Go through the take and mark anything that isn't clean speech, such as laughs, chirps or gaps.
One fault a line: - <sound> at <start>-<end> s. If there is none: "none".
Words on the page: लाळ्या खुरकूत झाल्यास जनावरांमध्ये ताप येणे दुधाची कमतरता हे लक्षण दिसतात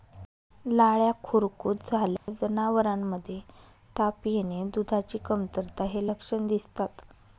- dropout at 2.2-2.3 s